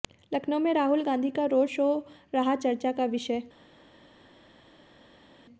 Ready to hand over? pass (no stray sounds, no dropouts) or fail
pass